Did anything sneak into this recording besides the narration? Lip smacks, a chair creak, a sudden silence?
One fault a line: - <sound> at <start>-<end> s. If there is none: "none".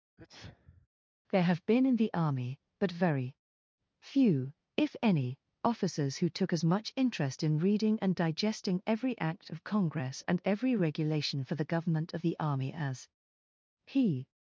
- sneeze at 0.2-0.9 s